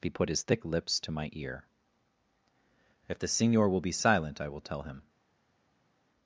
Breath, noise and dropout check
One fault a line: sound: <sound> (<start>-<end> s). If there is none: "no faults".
no faults